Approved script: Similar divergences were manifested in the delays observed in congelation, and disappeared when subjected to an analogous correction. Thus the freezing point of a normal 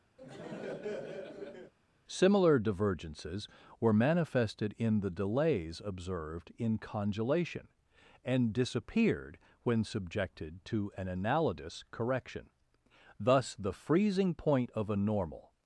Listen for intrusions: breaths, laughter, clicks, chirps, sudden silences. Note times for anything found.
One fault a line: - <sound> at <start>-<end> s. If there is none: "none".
- laugh at 0.2-1.7 s